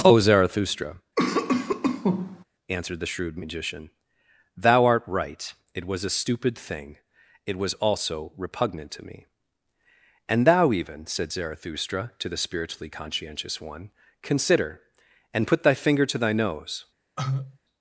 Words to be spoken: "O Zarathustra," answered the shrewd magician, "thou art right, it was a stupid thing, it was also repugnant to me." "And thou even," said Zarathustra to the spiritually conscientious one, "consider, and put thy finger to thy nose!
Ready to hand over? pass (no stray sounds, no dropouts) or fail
fail